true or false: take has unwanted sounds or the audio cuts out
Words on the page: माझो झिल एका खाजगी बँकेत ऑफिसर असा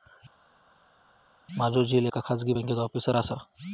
false